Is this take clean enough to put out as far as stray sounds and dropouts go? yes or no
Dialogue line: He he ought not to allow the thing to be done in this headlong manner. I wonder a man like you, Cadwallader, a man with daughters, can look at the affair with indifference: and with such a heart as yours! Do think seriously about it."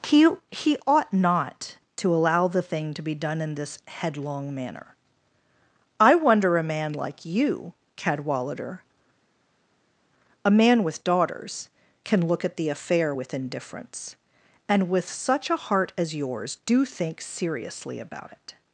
yes